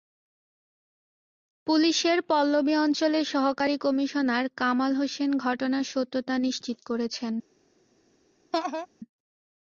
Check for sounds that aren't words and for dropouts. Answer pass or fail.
fail